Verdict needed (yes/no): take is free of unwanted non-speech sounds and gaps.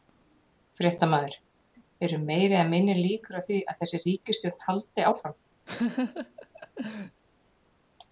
no